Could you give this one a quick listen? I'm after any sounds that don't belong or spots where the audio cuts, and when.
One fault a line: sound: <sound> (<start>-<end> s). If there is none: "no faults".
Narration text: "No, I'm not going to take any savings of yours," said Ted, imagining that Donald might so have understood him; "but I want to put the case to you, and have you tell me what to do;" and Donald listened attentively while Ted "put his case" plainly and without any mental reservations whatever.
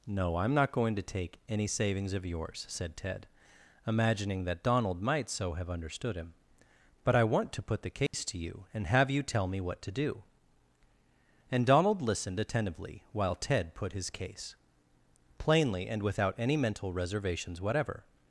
sound: dropout (8.1-8.1 s)